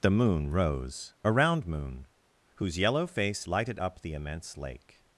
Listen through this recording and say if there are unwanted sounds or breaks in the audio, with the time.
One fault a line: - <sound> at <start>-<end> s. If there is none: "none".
none